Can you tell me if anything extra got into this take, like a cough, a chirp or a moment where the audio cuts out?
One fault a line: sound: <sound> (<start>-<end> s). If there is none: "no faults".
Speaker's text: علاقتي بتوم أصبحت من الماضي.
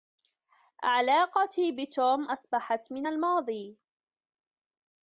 no faults